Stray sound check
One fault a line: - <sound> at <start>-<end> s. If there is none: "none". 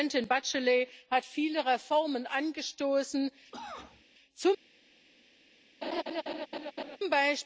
- cough at 3.5-4.0 s
- laugh at 5.8-7.0 s